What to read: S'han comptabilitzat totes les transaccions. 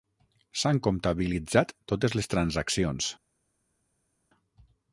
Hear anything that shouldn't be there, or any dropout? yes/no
no